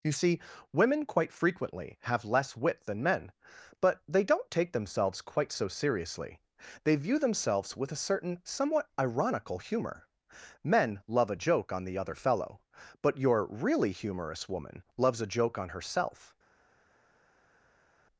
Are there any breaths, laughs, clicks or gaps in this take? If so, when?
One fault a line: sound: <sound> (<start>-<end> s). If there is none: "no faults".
no faults